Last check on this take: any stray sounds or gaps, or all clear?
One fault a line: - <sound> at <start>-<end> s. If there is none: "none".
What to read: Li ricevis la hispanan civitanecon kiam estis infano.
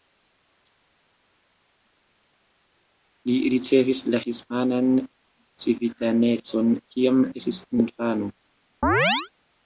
- chirp at 8.8-9.3 s